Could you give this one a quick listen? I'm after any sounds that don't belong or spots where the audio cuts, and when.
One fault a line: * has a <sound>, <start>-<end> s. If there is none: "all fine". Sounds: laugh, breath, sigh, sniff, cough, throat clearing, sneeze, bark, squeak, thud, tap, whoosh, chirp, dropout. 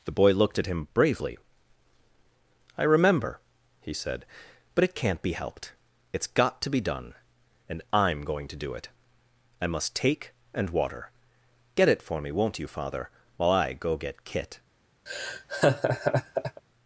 * has a laugh, 15.1-16.6 s